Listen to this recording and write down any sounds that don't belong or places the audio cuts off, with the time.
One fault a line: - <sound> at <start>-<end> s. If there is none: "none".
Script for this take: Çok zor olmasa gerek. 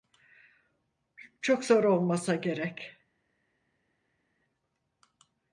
none